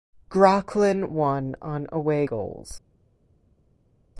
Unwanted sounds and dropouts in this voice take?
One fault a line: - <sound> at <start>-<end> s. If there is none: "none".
none